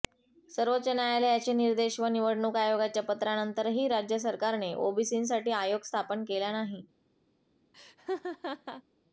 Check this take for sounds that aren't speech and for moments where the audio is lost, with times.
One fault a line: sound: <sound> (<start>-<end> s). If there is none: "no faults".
sound: laugh (7.7-8.8 s)